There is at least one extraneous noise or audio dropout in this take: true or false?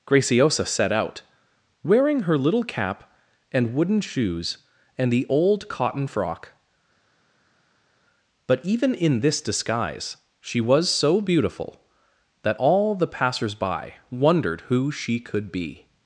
false